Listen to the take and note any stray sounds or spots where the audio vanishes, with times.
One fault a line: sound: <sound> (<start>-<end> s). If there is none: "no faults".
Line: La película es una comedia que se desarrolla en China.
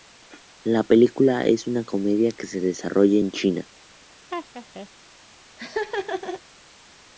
sound: laugh (4.3-4.9 s)
sound: laugh (5.6-6.4 s)